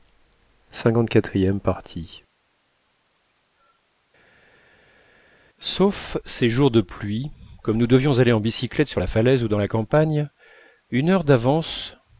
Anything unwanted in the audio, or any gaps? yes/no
no